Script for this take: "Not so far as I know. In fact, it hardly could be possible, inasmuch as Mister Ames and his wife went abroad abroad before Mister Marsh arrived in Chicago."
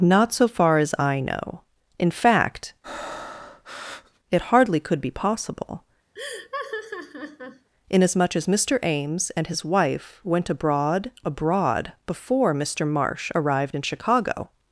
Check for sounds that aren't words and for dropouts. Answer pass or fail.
fail